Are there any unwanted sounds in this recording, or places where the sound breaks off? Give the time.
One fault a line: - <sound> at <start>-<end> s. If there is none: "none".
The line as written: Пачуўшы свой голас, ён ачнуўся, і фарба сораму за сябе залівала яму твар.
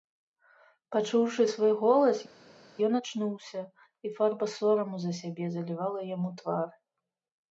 none